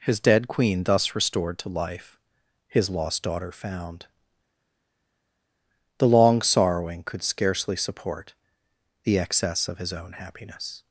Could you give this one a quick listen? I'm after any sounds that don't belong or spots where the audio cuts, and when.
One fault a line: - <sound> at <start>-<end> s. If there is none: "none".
none